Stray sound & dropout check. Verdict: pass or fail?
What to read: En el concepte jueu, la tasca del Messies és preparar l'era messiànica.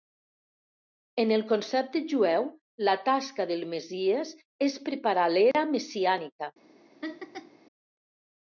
fail